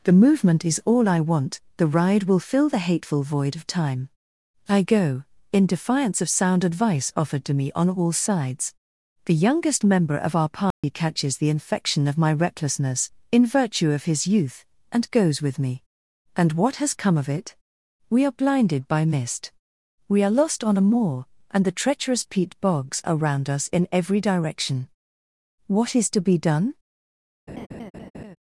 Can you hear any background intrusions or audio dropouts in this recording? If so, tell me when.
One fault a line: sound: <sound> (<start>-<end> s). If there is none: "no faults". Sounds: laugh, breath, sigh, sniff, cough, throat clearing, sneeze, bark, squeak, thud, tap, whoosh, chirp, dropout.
sound: dropout (10.7-10.8 s)
sound: laugh (27.5-28.4 s)